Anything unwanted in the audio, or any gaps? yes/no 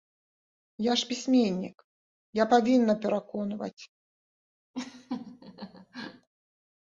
yes